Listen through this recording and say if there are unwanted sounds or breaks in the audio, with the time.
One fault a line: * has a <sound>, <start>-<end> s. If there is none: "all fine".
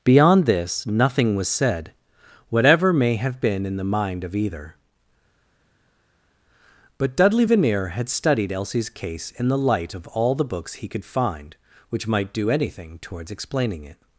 all fine